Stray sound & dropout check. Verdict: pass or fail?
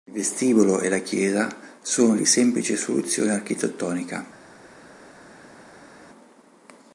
pass